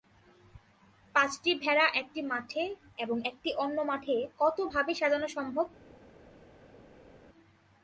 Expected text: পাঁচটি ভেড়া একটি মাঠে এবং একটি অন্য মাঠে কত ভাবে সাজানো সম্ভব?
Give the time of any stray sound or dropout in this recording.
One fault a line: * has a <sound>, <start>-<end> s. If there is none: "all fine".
all fine